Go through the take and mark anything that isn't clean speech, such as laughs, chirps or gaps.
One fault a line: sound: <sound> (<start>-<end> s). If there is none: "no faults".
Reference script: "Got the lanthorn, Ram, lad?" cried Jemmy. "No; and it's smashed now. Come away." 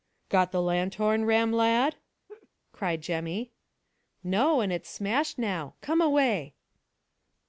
sound: laugh (2.3-2.5 s)